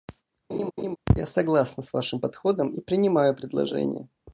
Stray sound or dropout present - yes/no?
yes